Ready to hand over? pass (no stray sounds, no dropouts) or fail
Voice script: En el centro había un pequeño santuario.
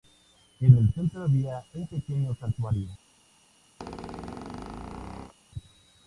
fail